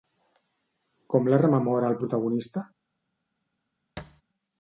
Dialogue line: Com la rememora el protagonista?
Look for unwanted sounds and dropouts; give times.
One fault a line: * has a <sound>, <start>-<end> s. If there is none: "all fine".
* has a thud, 4.0-4.2 s